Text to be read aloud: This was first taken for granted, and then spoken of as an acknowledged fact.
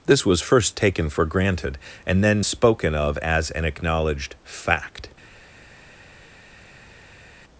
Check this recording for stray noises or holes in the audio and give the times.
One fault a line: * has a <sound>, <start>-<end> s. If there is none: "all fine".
all fine